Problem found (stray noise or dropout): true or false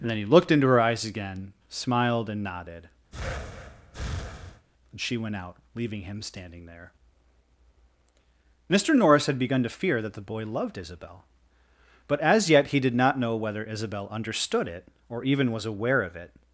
true